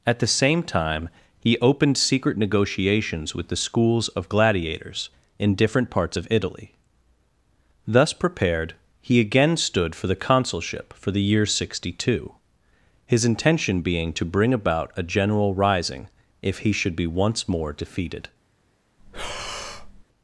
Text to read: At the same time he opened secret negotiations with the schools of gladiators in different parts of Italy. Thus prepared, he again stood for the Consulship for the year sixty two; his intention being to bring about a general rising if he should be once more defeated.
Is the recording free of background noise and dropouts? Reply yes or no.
no